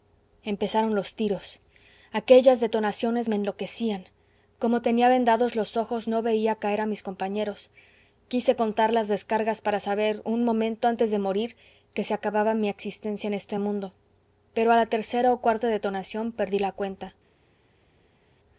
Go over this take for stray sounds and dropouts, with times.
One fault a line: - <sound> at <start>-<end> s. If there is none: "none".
none